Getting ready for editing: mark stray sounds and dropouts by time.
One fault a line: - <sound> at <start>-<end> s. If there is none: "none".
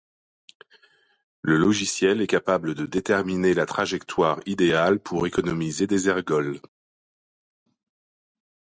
none